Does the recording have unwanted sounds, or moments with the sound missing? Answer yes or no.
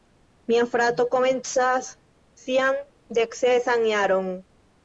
no